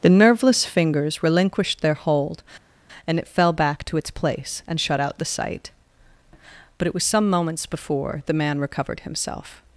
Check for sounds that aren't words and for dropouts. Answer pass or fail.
pass